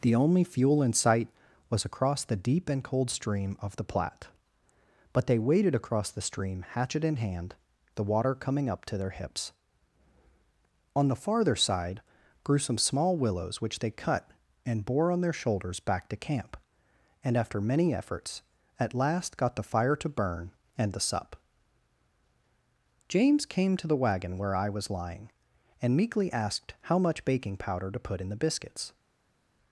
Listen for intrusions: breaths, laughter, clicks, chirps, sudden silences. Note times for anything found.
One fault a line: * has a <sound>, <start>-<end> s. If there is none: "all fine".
all fine